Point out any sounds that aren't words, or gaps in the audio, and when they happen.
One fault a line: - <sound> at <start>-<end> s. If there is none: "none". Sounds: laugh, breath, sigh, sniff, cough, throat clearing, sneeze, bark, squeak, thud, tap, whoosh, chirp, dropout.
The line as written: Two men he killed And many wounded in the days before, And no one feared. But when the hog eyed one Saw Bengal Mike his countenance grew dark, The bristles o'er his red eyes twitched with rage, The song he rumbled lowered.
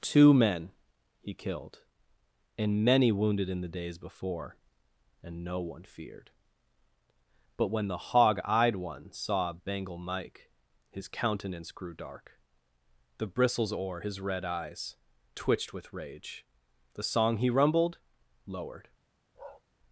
- bark at 19.3-19.6 s